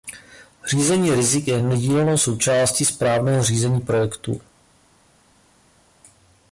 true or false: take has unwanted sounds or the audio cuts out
false